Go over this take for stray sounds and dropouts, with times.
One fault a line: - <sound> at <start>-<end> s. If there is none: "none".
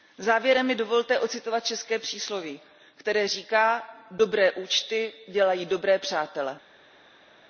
none